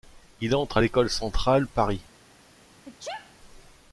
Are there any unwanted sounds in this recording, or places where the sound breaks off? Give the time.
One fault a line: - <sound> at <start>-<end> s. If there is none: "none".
- sneeze at 2.8-3.4 s